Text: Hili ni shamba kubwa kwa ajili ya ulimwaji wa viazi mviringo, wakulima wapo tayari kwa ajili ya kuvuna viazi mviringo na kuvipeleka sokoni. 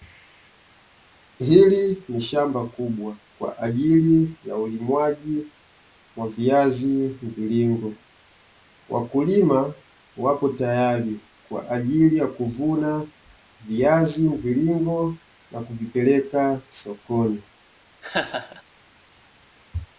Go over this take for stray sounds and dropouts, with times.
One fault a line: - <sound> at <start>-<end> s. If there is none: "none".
- laugh at 18.0-18.6 s